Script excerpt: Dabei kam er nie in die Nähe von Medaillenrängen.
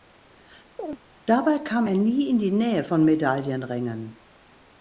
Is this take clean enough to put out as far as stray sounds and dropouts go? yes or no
no